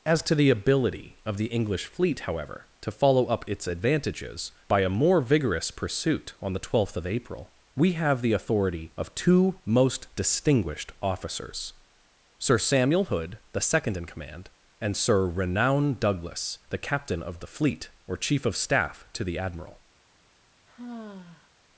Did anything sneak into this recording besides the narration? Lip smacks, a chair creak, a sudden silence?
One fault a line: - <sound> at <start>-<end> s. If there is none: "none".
- sigh at 20.7-21.5 s